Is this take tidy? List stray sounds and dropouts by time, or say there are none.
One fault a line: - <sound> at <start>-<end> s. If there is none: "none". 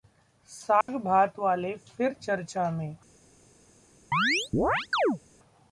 - dropout at 0.8-0.9 s
- chirp at 4.1-5.2 s